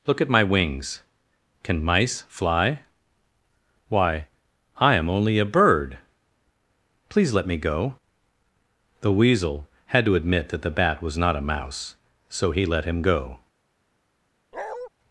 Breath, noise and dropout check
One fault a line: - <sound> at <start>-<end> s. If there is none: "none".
- bark at 14.5-14.9 s